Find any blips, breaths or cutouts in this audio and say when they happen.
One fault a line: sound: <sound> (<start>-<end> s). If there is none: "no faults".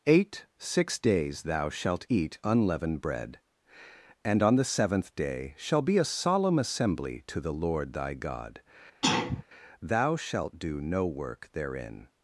sound: sneeze (9.0-9.4 s)